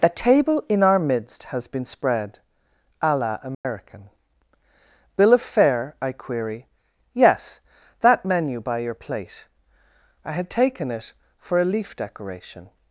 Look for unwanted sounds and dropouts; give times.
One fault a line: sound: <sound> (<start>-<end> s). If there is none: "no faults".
sound: dropout (3.5-3.6 s)